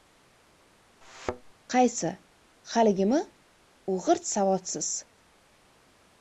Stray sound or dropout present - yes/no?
yes